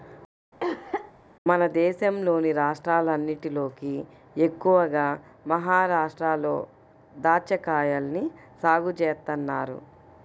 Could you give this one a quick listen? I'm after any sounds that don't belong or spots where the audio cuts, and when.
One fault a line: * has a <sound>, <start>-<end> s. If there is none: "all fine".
* has a cough, 0.6-1.1 s